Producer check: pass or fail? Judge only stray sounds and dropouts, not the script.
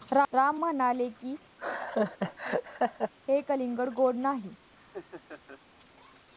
fail